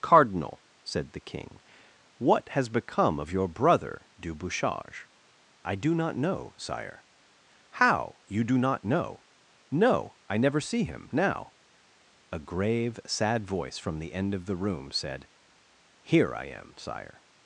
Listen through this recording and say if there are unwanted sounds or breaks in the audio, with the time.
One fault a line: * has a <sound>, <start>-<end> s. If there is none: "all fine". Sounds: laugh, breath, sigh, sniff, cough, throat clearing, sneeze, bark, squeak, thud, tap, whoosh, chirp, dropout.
all fine